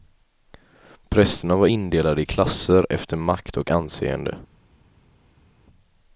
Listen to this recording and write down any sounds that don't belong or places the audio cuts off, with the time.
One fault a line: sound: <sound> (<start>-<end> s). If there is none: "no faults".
no faults